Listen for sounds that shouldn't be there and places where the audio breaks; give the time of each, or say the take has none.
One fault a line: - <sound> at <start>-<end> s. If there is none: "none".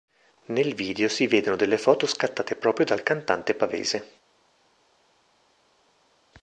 none